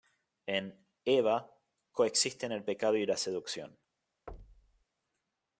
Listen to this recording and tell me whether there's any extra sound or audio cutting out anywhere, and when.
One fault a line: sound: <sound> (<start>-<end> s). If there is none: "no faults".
sound: thud (4.3-4.8 s)